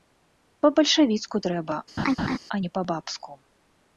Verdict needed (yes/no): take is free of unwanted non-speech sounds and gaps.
no